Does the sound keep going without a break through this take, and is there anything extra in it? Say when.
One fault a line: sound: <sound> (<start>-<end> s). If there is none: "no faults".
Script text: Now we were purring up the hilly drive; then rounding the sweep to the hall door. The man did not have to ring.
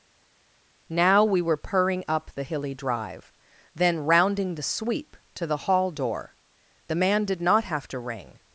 no faults